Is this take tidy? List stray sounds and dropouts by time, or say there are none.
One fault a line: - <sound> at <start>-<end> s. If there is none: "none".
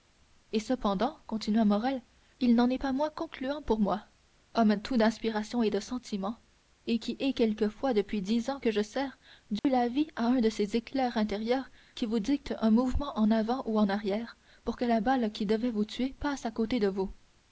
- dropout at 9.6-9.6 s